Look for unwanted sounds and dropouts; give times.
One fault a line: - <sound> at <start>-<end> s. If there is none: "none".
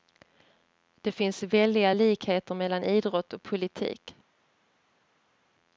none